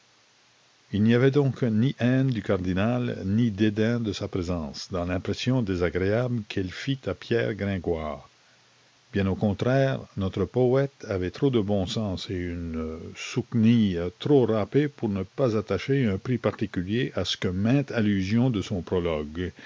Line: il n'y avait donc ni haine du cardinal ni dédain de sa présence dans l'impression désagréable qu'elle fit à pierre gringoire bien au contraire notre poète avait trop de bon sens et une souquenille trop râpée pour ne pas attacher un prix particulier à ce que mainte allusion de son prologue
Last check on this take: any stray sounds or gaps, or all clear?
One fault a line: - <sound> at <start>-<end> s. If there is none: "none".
none